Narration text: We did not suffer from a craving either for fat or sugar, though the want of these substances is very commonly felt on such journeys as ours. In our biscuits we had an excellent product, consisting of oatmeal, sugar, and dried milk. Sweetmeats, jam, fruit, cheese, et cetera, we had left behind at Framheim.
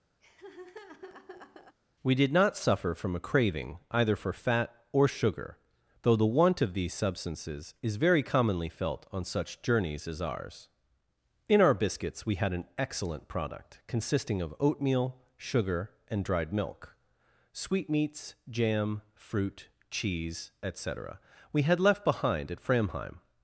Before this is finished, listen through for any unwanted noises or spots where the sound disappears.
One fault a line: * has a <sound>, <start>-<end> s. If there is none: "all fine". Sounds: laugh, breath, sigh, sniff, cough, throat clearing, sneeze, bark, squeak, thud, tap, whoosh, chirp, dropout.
* has a laugh, 0.2-1.8 s